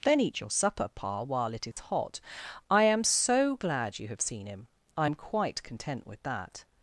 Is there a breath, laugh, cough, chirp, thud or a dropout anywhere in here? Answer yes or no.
yes